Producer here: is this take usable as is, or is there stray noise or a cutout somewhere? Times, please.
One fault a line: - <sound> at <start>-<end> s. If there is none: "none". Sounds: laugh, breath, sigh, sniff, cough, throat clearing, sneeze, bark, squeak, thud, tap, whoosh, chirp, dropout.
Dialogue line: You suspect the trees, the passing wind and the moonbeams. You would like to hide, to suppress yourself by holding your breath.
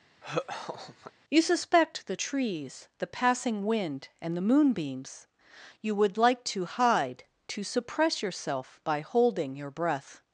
- laugh at 0.2-1.1 s